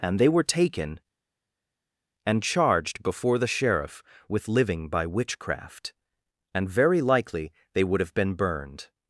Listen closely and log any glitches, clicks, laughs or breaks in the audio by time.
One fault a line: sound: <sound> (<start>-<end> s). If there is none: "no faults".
no faults